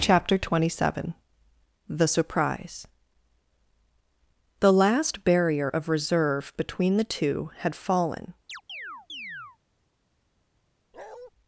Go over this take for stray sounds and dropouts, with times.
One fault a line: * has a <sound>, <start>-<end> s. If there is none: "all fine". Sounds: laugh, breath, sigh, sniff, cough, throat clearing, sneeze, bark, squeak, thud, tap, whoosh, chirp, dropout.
* has a chirp, 8.5-9.6 s
* has a bark, 10.9-11.3 s